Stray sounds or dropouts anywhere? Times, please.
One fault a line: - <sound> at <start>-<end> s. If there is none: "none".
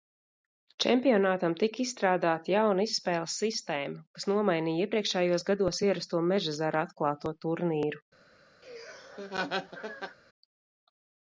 - laugh at 8.6-10.2 s